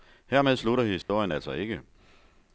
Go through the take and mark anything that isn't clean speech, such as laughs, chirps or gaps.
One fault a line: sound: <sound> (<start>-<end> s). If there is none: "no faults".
sound: dropout (1.0-1.1 s)